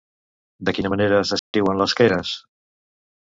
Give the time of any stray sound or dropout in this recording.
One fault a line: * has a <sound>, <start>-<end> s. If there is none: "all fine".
* has a dropout, 1.4-1.5 s